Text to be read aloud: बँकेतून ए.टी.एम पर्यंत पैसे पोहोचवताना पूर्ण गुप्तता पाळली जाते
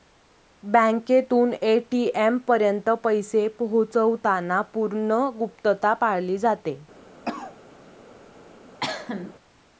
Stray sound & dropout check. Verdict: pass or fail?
fail